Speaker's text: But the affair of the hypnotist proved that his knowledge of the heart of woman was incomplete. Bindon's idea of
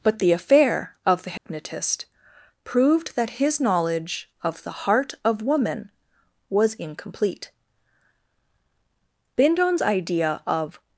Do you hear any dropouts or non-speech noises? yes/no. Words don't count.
yes